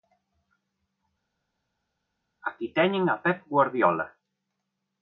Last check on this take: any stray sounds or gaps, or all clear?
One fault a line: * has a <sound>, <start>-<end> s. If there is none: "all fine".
all fine